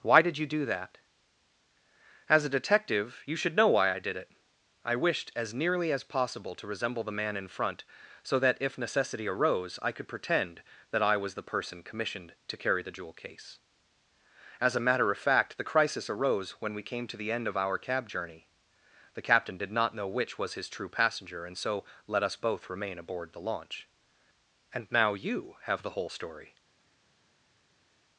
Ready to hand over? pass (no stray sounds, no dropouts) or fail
pass